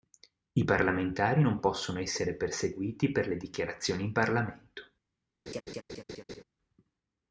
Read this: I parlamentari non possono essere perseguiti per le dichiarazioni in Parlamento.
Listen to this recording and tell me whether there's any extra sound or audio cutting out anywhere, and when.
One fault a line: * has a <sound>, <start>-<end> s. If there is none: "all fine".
* has a laugh, 5.5-6.4 s